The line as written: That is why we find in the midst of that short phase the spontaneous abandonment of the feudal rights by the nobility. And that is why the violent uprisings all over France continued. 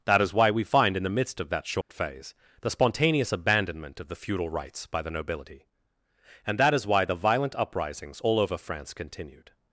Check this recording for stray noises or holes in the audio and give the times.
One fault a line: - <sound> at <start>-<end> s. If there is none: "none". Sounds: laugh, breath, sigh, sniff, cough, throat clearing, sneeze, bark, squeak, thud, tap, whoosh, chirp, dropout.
- dropout at 1.8-1.9 s